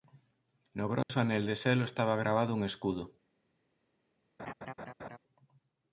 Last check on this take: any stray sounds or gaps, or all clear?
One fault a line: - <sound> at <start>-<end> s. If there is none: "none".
- dropout at 1.0-1.1 s
- laugh at 4.4-5.2 s